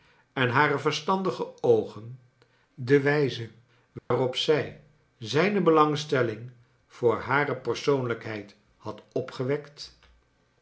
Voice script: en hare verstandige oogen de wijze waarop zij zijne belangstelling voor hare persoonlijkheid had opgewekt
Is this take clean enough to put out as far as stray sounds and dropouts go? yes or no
no